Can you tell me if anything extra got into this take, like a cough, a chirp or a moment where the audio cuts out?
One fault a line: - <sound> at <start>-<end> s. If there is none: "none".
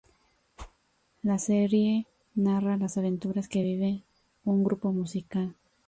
- whoosh at 0.6-0.8 s